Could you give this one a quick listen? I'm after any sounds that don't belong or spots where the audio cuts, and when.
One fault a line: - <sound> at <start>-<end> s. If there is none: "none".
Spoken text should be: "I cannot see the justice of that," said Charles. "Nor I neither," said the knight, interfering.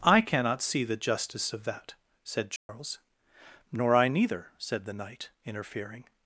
- dropout at 2.6-2.7 s